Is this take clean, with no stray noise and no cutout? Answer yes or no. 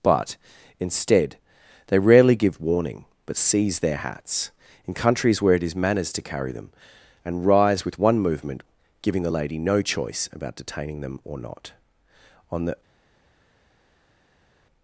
yes